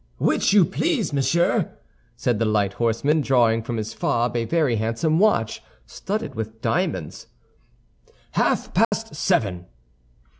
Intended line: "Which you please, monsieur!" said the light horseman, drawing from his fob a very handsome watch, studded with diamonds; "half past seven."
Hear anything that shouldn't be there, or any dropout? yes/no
yes